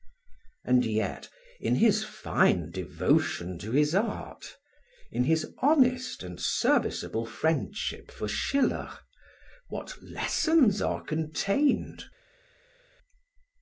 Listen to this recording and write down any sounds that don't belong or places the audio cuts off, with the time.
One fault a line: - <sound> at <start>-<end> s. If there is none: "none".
none